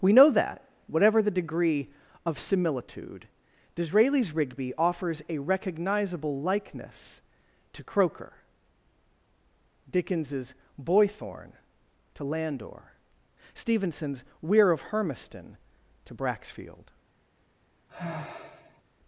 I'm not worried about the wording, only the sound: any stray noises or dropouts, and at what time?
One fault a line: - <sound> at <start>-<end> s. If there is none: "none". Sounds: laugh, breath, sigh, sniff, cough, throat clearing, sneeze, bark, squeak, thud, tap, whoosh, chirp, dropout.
- sigh at 17.9-18.8 s